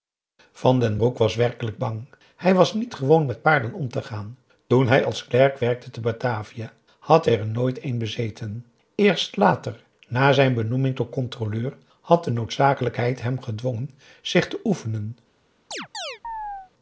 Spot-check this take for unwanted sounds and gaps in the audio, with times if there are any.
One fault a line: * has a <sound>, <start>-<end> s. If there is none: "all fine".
* has a chirp, 15.7-16.7 s